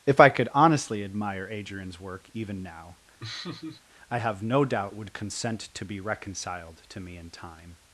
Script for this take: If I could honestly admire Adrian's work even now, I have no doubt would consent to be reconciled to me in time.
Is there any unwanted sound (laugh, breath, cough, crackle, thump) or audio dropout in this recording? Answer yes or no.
yes